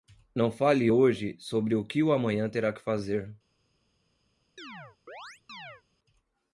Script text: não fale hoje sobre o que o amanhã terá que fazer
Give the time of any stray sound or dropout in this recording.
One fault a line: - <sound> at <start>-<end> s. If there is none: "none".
- chirp at 4.6-5.8 s